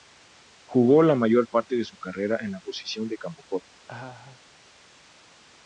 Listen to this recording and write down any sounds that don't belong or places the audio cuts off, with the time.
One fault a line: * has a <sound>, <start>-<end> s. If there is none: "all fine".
* has a laugh, 3.9-4.4 s